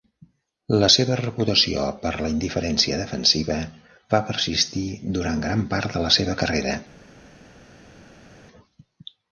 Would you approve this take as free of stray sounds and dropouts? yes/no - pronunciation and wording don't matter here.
yes